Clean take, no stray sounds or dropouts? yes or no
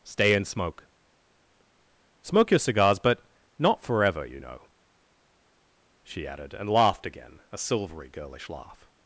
yes